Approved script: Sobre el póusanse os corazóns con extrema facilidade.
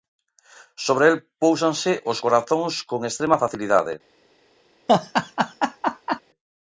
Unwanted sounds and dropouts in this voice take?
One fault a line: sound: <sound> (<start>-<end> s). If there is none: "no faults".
sound: laugh (4.9-6.2 s)